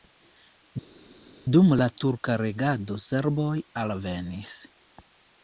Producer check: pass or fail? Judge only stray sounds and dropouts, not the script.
pass